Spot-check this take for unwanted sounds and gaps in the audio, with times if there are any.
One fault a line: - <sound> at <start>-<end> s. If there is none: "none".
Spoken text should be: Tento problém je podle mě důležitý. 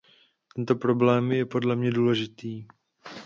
none